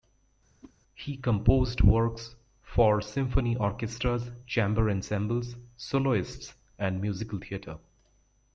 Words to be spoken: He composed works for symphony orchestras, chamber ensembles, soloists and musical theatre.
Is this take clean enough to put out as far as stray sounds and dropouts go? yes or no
no